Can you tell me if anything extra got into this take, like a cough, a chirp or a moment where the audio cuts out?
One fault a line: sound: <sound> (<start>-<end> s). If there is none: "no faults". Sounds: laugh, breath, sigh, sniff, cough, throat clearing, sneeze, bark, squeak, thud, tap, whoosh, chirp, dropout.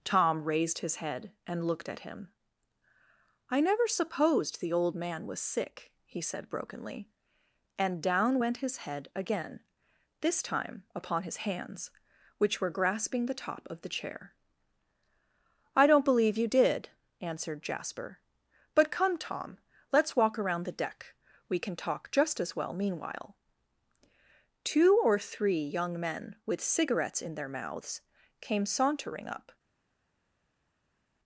no faults